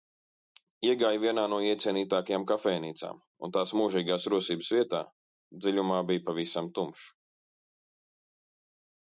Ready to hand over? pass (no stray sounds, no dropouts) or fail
pass